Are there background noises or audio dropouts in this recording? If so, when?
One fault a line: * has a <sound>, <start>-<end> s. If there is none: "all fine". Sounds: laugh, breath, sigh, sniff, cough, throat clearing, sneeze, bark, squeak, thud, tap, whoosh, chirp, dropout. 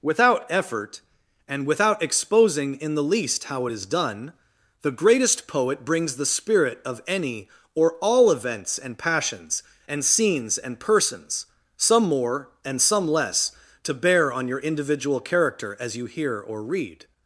all fine